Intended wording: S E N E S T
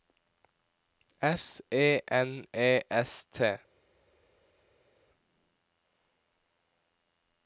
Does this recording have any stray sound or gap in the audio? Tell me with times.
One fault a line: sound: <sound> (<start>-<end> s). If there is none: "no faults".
no faults